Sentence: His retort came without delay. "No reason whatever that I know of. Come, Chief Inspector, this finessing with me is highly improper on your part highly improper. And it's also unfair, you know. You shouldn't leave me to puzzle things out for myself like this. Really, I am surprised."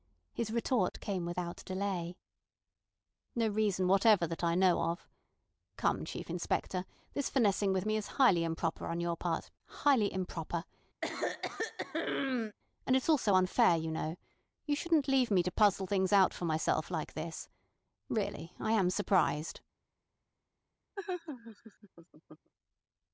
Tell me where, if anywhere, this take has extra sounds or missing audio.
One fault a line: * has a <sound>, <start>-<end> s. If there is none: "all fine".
* has a throat clearing, 11.0-12.6 s
* has a laugh, 21.0-22.5 s